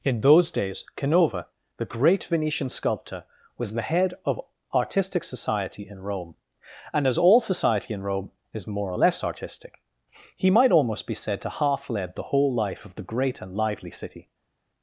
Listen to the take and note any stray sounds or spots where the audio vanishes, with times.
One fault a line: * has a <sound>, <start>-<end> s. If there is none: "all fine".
all fine